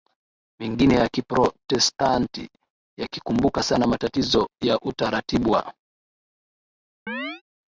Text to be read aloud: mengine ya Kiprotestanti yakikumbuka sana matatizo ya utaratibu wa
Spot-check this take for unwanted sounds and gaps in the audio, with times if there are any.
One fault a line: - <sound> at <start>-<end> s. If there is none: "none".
- chirp at 7.1-7.4 s